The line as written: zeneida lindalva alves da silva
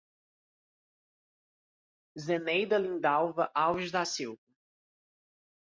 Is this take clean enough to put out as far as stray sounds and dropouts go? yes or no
yes